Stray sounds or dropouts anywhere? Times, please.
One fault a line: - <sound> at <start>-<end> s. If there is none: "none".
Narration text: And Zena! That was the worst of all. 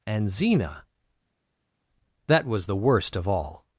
none